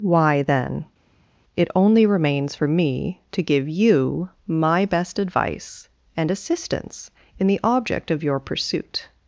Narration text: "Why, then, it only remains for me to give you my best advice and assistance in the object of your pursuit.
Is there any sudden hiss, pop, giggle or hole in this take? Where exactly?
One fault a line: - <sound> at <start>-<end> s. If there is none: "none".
none